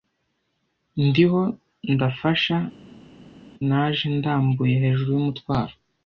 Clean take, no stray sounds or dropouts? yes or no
yes